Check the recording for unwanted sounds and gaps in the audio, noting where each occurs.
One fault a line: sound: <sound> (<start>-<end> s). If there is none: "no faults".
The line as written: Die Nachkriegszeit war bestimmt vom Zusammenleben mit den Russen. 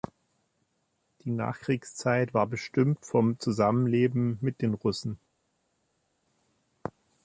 no faults